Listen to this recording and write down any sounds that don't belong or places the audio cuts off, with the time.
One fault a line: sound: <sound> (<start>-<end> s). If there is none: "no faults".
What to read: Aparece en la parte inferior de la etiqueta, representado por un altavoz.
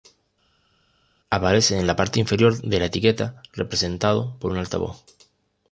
no faults